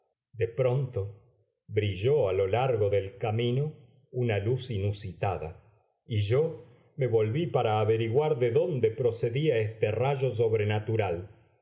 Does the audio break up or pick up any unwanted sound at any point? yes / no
no